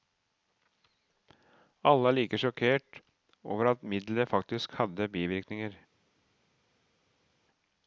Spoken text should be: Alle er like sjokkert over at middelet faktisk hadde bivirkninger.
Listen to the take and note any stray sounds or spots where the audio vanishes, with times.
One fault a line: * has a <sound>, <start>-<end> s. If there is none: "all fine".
all fine